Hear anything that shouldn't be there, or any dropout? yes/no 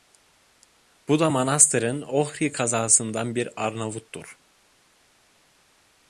no